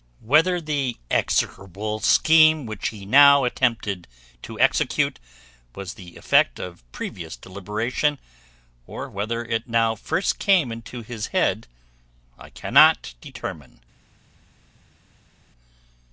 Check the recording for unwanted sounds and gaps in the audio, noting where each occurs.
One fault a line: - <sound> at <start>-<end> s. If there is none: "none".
none